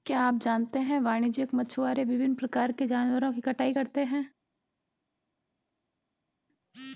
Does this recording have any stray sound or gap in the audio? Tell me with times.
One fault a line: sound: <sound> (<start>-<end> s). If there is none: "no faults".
no faults